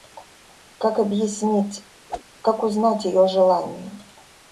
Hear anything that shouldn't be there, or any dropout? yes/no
yes